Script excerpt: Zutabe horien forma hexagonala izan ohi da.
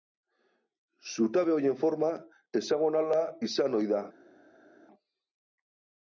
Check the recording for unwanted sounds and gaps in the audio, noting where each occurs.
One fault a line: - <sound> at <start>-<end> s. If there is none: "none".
none